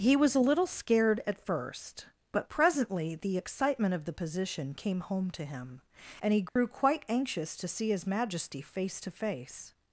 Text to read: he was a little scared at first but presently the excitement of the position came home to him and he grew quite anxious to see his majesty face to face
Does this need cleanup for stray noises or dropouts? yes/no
yes